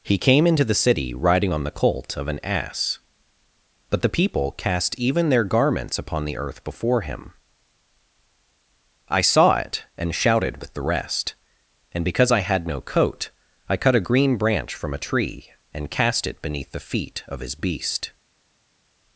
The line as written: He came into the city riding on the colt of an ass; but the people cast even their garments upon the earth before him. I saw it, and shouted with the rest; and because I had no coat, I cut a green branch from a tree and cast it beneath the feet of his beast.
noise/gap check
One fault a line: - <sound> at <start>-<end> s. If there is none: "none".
none